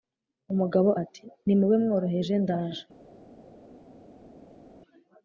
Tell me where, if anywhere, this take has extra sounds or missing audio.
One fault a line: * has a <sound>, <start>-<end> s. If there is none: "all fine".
all fine